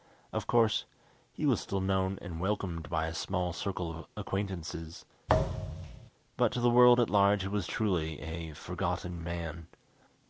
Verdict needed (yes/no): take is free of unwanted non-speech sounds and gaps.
no